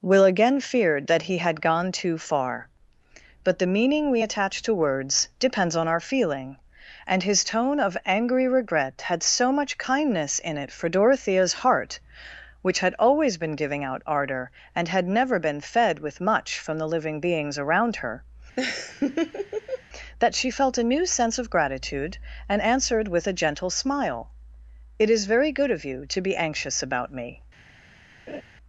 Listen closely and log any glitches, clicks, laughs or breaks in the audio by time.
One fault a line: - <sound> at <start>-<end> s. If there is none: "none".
- laugh at 18.6-19.8 s
- laugh at 28.3-28.4 s